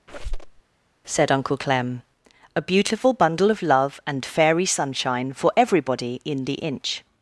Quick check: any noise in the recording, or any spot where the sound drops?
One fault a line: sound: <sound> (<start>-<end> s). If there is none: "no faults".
sound: squeak (0.1-0.6 s)